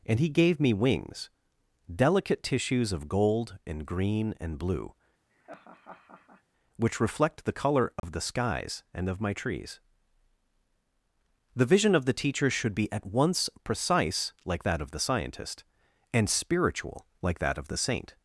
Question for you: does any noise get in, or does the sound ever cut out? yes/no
yes